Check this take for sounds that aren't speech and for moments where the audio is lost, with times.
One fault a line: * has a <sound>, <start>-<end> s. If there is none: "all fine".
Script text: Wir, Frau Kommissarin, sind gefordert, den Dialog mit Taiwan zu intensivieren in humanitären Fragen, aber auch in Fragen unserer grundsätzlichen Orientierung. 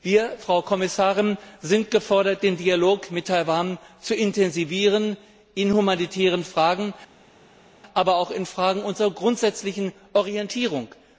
all fine